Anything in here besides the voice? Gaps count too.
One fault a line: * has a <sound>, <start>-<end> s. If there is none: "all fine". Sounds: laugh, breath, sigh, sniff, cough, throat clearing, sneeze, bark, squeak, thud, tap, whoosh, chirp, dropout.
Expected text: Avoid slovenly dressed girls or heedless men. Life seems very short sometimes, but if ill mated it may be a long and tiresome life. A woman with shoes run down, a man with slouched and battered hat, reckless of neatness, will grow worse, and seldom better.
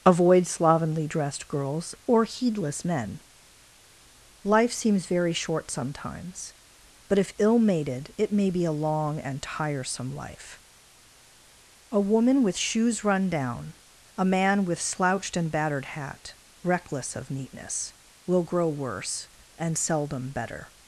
all fine